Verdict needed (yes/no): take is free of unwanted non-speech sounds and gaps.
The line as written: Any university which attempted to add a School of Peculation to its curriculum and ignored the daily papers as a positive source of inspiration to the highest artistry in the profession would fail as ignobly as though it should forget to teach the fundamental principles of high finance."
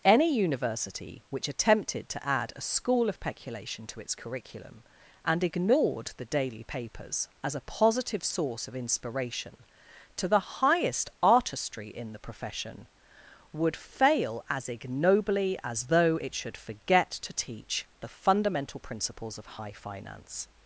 yes